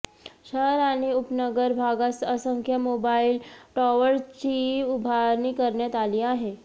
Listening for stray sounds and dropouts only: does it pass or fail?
pass